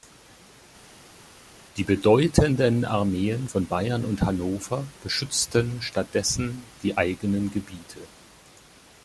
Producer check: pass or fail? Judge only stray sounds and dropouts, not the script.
pass